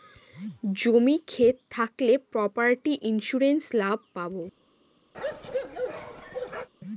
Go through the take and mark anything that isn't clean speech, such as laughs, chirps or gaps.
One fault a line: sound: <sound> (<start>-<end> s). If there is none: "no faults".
sound: bark (5.1-6.7 s)